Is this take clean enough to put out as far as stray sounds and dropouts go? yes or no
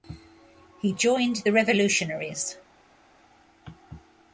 yes